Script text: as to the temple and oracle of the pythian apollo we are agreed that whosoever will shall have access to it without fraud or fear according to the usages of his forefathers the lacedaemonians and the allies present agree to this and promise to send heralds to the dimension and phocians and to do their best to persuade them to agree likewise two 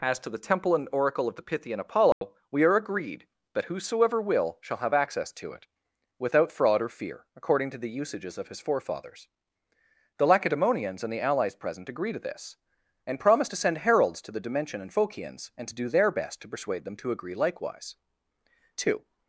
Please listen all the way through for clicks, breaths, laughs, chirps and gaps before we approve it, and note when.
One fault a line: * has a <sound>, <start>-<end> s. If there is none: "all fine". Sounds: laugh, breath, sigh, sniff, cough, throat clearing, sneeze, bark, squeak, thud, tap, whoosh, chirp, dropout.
* has a dropout, 2.1-2.2 s